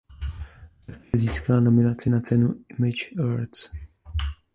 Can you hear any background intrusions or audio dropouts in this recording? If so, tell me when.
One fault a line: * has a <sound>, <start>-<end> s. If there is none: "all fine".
* has a dropout, 1.0-1.1 s